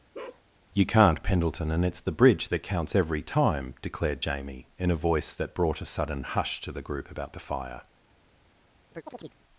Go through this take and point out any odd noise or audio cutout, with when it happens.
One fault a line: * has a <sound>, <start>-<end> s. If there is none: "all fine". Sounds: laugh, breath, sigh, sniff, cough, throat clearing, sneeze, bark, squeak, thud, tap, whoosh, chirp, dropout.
* has a bark, 0.1-0.4 s
* has a chirp, 8.9-9.4 s